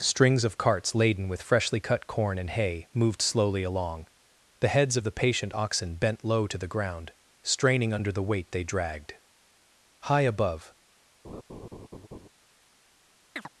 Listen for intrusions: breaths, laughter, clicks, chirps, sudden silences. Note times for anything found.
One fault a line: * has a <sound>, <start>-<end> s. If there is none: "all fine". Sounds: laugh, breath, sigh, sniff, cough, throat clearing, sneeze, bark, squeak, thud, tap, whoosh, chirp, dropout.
* has a laugh, 11.2-12.3 s
* has a chirp, 13.4-13.5 s